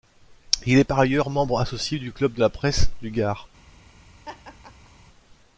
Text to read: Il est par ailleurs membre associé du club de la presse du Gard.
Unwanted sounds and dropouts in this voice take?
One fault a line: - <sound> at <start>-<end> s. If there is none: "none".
- laugh at 4.2-4.9 s